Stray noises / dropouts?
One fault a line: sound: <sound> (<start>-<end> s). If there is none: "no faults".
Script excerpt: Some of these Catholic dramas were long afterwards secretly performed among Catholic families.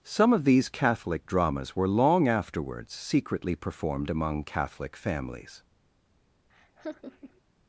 sound: laugh (6.5-7.4 s)